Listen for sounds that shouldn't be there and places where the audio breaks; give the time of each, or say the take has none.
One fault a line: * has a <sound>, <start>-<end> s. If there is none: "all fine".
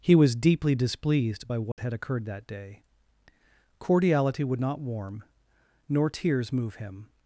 * has a dropout, 1.7-1.8 s